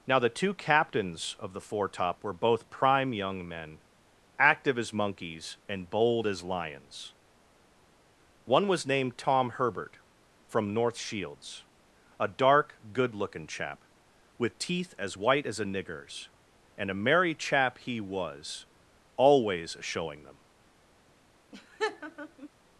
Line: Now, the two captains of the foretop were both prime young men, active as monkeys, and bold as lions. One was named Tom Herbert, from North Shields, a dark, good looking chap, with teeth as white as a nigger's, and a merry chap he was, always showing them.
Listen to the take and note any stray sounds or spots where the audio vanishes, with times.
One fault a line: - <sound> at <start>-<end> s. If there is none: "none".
- laugh at 21.5-22.5 s